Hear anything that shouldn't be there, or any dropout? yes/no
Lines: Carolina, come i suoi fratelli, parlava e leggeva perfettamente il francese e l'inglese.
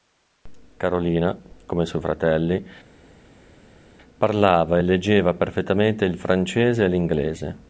no